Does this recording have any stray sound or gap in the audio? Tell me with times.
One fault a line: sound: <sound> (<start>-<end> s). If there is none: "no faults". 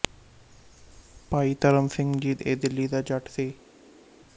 no faults